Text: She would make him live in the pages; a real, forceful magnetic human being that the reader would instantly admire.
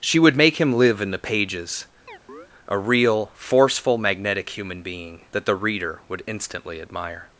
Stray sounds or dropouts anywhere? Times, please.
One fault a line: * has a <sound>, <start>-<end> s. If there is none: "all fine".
* has a chirp, 2.1-2.5 s